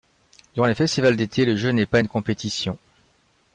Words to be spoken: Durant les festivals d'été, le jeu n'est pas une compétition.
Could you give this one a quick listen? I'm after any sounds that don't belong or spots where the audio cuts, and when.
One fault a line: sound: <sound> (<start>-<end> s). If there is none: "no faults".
no faults